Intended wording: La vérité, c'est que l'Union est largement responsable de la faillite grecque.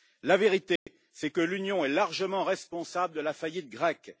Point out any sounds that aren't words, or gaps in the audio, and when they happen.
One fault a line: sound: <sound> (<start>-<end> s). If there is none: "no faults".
sound: dropout (0.8-0.9 s)